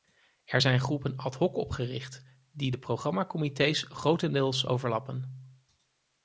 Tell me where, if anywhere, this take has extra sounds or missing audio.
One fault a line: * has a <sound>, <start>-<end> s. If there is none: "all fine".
all fine